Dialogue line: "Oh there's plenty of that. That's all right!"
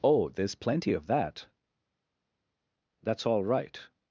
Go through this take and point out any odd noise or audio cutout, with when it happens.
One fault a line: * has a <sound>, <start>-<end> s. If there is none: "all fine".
all fine